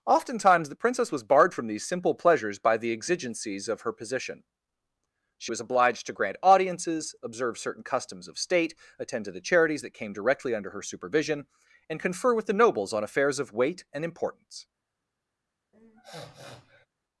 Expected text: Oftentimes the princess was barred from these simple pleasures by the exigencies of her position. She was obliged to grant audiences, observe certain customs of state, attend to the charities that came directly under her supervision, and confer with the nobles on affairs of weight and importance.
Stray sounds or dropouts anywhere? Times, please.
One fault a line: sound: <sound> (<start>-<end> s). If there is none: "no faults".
sound: sniff (15.7-16.9 s)